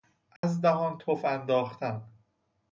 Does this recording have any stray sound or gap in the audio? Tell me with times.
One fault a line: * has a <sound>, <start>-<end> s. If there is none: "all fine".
* has a dropout, 0.4-0.4 s